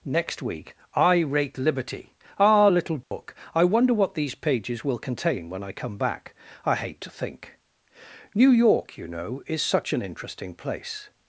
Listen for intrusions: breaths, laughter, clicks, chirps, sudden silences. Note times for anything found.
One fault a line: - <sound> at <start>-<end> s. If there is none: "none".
- dropout at 3.0-3.1 s